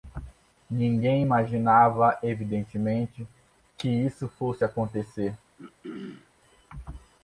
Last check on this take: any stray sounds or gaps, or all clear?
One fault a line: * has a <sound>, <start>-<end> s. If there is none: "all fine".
* has a throat clearing, 5.6-6.3 s